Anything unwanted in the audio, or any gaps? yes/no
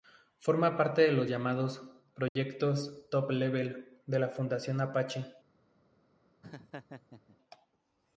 yes